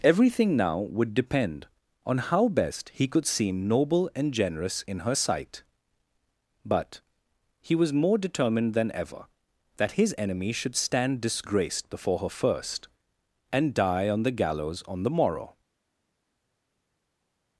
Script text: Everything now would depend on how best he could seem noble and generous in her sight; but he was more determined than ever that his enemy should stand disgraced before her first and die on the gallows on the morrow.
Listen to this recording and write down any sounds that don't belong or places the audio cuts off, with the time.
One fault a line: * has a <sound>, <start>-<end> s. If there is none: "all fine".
all fine